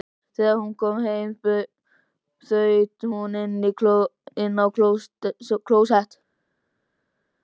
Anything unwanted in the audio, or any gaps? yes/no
no